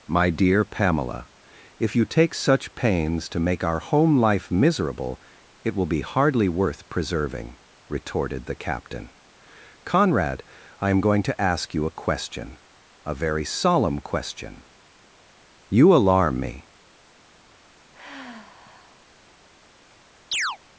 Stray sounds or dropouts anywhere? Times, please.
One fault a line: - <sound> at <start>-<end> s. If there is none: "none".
- sigh at 17.9-19.0 s
- chirp at 20.3-20.6 s